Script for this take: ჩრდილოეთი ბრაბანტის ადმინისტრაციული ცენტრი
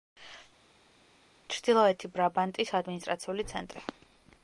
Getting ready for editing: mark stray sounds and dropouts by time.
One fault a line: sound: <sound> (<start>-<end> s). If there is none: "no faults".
no faults